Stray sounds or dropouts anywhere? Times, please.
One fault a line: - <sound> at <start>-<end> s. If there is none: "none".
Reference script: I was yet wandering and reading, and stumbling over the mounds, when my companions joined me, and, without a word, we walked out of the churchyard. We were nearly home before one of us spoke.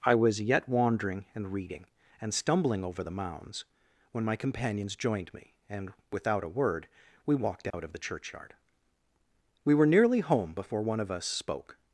- dropout at 7.7-7.7 s